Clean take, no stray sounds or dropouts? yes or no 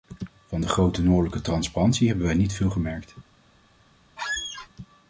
no